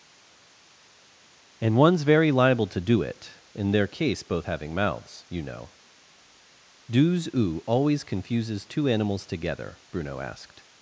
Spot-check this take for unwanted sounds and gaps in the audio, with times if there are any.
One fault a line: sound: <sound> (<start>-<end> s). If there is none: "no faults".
no faults